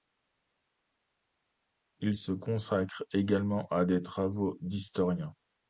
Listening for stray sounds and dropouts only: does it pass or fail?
pass